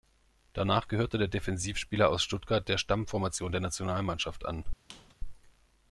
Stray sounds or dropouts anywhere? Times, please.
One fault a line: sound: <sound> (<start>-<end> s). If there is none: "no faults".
sound: squeak (4.9-5.1 s)